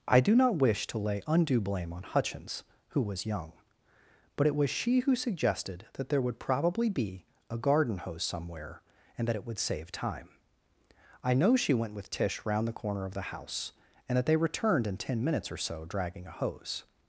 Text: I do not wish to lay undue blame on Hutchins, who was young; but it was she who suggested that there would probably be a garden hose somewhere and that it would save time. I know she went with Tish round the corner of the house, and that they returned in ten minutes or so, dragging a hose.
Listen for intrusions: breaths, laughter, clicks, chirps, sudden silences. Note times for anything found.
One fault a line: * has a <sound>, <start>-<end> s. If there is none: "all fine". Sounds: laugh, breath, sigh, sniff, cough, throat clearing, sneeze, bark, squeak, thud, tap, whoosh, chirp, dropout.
all fine